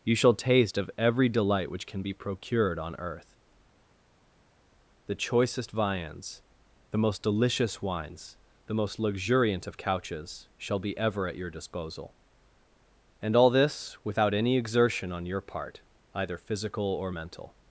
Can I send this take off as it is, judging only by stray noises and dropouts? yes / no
yes